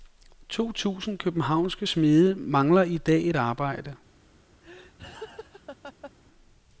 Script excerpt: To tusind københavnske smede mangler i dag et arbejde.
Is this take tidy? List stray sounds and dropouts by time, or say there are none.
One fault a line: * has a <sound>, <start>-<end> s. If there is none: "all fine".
* has a laugh, 4.6-6.1 s